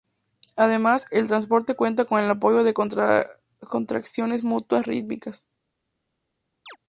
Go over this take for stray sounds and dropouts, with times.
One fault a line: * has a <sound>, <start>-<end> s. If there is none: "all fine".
* has a chirp, 6.7-6.8 s